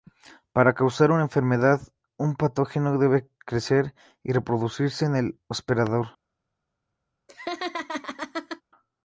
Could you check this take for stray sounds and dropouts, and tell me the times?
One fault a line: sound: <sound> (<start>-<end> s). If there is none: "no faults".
sound: laugh (7.3-8.6 s)